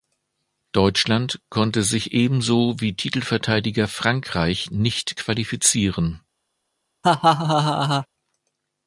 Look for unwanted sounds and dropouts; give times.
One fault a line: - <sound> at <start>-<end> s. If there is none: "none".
- laugh at 7.0-8.1 s